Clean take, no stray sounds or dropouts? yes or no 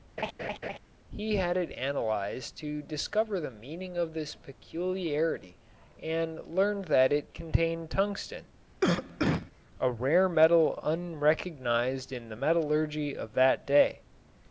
no